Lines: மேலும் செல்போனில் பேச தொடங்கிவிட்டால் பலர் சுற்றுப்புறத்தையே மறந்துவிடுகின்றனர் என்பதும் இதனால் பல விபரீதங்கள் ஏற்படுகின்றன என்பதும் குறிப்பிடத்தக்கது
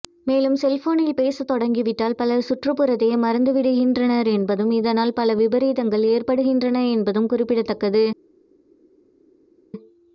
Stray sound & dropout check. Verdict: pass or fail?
pass